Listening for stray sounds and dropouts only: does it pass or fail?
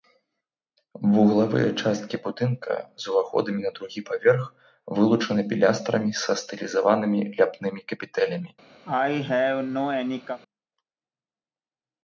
fail